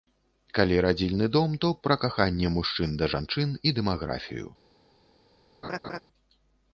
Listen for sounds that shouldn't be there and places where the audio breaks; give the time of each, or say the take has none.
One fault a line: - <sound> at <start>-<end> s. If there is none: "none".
- laugh at 5.6-6.0 s